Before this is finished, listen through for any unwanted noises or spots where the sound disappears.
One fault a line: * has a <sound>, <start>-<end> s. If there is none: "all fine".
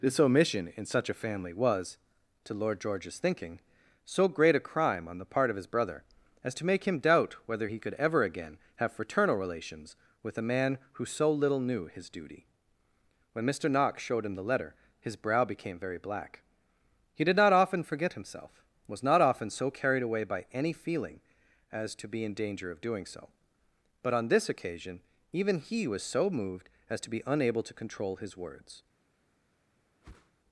* has a whoosh, 30.0-30.3 s